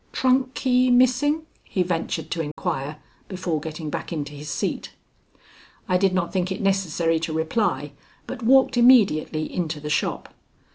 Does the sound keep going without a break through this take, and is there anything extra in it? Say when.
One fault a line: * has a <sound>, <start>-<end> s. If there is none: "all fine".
* has a dropout, 2.5-2.6 s